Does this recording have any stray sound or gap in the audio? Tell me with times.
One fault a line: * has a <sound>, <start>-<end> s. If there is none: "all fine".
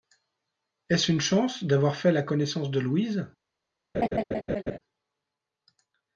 * has a laugh, 3.9-4.8 s